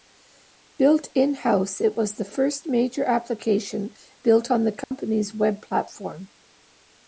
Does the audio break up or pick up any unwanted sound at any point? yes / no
yes